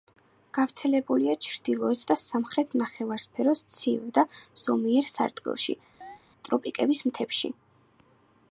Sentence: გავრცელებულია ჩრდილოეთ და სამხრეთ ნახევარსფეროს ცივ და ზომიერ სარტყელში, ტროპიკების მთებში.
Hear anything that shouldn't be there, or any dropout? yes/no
yes